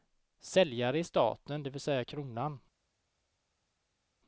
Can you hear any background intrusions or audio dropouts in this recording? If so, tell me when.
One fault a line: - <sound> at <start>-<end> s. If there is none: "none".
none